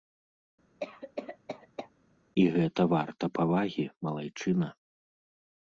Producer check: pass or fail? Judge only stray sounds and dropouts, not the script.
fail